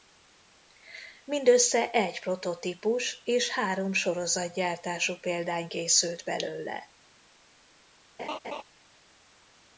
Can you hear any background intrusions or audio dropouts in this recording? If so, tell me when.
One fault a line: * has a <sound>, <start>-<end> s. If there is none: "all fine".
* has a laugh, 8.2-8.6 s